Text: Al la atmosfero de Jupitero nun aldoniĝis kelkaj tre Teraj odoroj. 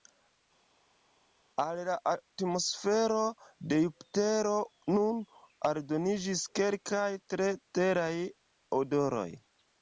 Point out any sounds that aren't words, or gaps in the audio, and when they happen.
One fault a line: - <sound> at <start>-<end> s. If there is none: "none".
none